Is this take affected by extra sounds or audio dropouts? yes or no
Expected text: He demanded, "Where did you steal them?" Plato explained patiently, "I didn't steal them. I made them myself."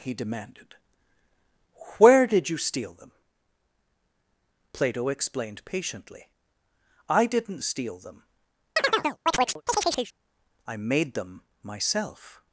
yes